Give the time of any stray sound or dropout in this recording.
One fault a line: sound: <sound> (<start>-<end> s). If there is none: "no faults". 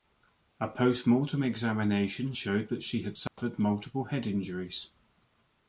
sound: dropout (3.3-3.4 s)